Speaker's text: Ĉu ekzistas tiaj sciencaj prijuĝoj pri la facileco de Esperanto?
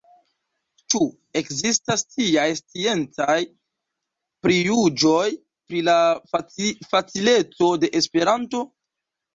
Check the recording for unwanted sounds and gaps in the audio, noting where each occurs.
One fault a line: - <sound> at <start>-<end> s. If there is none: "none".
none